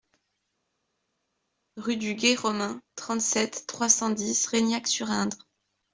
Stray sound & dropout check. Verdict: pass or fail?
pass